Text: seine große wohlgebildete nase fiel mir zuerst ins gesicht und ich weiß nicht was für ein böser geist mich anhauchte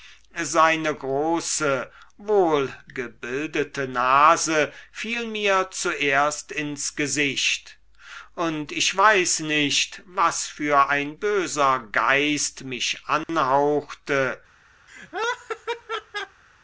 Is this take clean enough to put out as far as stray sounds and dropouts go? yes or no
no